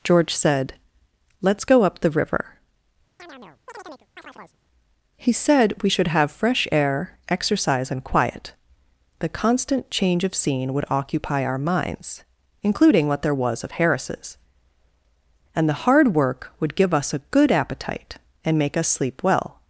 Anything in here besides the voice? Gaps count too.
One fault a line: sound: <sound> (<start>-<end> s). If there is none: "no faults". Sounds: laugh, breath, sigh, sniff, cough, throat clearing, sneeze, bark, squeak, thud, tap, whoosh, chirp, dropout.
sound: chirp (3.2-4.6 s)